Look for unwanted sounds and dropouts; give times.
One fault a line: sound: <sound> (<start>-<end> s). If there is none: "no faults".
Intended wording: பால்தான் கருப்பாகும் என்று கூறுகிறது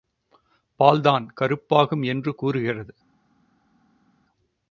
no faults